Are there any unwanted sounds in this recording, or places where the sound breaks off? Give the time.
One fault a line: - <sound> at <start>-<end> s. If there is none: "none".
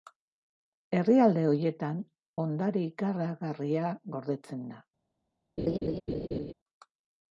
- laugh at 5.6-6.5 s